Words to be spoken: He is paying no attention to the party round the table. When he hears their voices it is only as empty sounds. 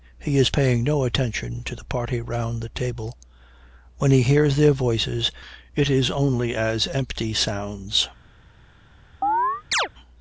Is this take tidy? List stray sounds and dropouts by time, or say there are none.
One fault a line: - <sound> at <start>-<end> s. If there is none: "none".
- chirp at 9.2-9.9 s